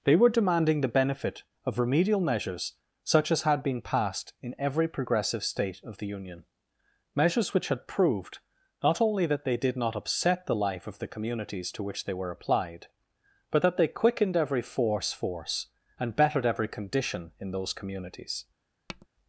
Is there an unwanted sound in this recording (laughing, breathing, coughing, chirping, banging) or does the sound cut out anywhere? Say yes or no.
yes